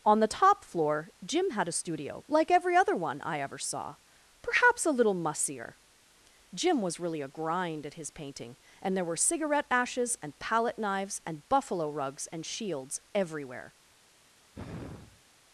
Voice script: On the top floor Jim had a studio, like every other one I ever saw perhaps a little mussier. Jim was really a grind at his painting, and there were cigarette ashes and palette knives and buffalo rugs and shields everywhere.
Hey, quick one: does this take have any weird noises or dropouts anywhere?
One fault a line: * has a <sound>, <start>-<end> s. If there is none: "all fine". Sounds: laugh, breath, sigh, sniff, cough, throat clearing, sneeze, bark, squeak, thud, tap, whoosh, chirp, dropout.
* has a sigh, 14.5-15.2 s